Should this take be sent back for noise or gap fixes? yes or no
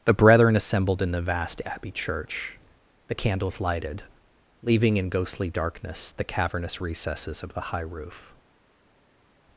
no